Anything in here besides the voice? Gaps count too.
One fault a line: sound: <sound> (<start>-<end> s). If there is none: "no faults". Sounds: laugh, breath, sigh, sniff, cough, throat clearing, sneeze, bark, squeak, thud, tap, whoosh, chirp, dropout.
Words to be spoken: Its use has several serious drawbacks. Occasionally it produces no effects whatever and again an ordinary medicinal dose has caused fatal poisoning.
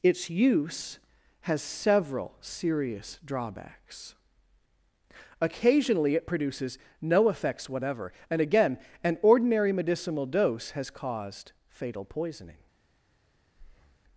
sound: breath (13.6-14.0 s)